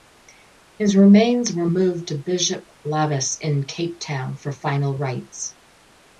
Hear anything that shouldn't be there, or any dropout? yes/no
no